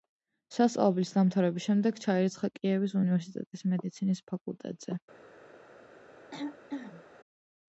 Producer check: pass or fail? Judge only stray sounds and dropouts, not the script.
fail